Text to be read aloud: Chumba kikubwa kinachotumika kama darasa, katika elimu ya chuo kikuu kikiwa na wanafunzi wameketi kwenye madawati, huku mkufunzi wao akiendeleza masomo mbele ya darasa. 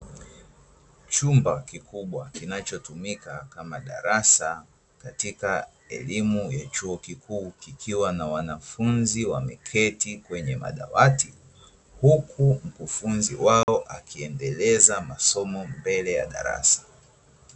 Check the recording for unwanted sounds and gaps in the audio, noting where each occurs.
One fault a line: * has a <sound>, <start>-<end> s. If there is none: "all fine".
* has a dropout, 13.6-13.7 s